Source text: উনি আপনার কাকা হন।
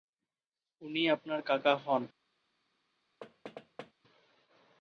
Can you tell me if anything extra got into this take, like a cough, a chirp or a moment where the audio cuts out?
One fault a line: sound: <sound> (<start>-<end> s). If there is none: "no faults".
sound: thud (3.2-3.9 s)